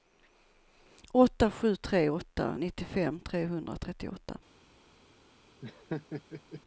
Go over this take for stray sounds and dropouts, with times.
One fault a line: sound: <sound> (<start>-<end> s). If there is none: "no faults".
sound: laugh (5.6-6.6 s)